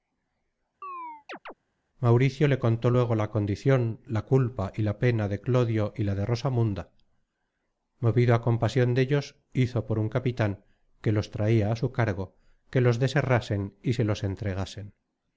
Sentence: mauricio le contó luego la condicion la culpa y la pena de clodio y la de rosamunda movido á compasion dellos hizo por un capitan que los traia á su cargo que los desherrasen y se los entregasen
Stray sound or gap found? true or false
true